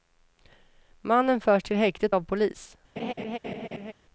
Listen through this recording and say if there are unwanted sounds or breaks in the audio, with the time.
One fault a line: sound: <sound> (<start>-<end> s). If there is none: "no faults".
sound: laugh (3.0-3.9 s)